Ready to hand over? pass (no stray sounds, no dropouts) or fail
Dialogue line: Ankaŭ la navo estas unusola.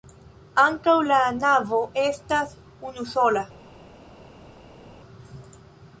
pass